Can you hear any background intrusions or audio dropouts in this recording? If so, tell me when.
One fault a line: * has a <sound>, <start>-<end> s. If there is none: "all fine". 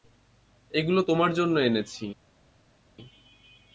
all fine